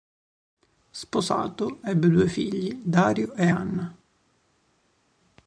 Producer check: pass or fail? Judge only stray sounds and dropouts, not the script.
pass